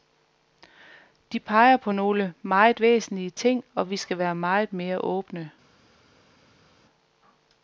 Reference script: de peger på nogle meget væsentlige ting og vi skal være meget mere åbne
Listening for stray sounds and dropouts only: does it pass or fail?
pass